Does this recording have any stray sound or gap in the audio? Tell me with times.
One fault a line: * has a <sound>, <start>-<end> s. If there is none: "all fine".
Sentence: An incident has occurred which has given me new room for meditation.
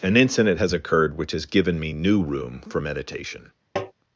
* has a tap, 3.8-3.9 s